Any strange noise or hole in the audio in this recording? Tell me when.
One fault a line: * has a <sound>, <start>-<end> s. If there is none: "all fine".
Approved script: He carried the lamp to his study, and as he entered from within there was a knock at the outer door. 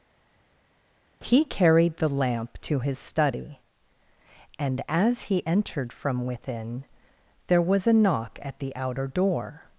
all fine